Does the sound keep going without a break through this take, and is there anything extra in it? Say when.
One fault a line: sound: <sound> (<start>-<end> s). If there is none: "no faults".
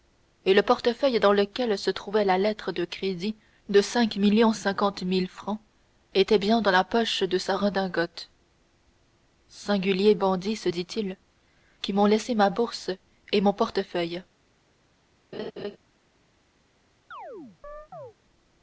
sound: laugh (15.3-15.8 s)
sound: chirp (17.1-18.1 s)